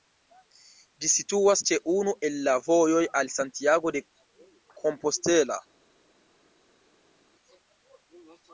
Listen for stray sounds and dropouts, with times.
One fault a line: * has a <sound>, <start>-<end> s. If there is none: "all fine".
all fine